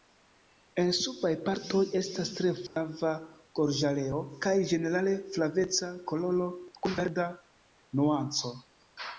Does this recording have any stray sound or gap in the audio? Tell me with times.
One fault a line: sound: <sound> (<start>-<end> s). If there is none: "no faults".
sound: dropout (2.7-2.8 s)